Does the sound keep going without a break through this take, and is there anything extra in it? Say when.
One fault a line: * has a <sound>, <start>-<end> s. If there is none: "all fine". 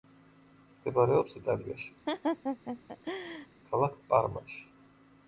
* has a laugh, 2.1-3.5 s